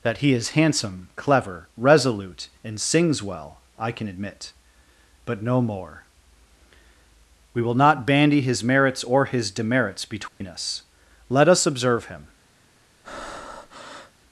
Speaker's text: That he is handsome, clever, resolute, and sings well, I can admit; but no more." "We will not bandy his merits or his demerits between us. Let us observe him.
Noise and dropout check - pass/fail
fail